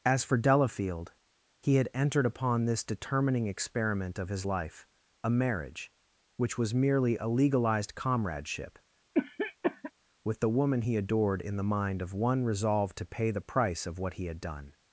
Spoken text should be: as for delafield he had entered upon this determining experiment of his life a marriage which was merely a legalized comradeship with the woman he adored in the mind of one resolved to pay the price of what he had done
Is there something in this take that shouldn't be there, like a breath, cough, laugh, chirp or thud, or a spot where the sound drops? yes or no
yes